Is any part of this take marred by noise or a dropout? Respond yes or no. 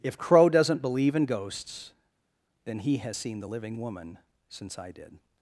no